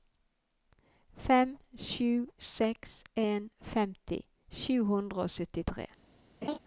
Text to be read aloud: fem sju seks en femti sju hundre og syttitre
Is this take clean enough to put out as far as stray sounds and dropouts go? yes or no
no